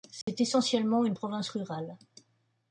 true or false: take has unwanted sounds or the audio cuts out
true